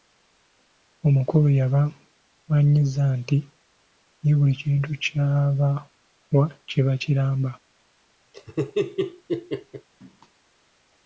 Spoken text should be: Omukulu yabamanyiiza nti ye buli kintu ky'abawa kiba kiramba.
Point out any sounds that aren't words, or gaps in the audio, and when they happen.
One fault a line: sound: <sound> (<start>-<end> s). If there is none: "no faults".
sound: laugh (8.3-9.9 s)